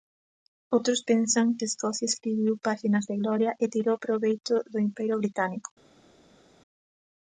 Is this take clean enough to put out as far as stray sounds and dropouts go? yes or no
yes